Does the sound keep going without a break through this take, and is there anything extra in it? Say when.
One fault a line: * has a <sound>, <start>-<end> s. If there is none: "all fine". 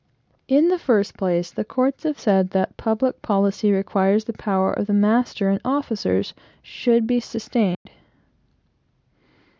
* has a dropout, 7.7-7.9 s